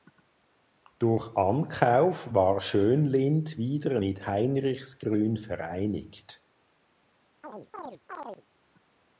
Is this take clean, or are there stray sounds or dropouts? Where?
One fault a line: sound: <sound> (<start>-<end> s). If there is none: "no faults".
sound: chirp (7.4-8.4 s)